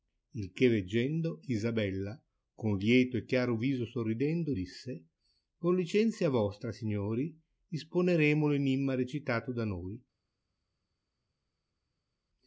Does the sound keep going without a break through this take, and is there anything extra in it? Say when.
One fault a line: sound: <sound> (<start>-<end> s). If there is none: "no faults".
no faults